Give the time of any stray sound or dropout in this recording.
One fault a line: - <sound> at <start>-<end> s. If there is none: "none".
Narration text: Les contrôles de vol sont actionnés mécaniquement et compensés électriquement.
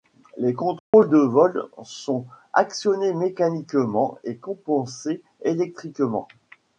- dropout at 0.8-0.9 s